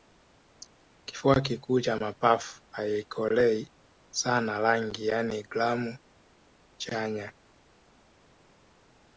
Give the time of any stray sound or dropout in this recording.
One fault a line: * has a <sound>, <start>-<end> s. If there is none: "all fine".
all fine